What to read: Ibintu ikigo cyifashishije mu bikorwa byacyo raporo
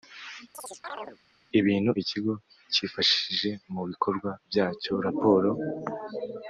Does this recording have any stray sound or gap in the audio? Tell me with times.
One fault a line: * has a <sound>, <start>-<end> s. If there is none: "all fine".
* has a chirp, 0.5-1.2 s